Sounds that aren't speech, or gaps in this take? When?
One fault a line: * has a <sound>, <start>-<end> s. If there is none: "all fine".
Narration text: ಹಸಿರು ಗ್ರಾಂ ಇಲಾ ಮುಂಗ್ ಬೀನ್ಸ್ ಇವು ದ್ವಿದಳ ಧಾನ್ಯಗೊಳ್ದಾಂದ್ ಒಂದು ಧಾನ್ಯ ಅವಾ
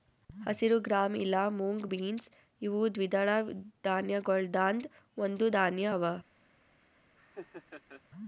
* has a laugh, 7.2-8.0 s